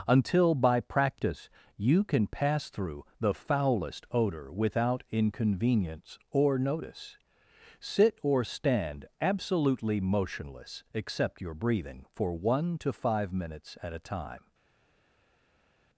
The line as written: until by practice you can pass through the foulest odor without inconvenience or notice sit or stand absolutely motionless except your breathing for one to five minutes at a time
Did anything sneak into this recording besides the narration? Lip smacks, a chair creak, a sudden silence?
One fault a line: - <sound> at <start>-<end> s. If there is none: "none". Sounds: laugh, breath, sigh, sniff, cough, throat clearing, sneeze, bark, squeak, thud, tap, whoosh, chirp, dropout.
none